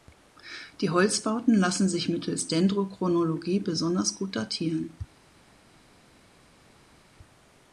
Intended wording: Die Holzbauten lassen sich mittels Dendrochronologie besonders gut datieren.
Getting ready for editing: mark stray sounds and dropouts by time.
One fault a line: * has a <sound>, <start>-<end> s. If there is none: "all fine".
all fine